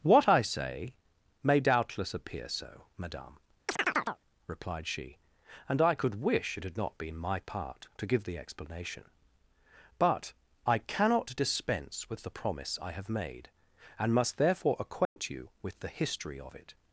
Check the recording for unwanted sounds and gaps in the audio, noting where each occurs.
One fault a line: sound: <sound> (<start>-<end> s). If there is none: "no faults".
sound: chirp (3.7-4.2 s)
sound: dropout (15.0-15.2 s)